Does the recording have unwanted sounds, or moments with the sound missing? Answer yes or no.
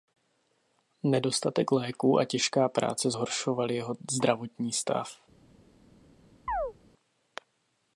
yes